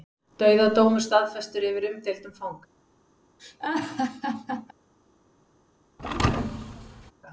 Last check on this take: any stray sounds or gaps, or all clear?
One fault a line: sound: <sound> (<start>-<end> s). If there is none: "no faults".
sound: laugh (3.4-4.7 s)
sound: thud (6.0-7.1 s)